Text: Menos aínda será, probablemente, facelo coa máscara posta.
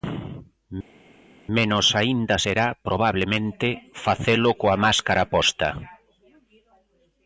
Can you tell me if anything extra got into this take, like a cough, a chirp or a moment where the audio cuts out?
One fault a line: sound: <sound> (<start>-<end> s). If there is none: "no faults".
no faults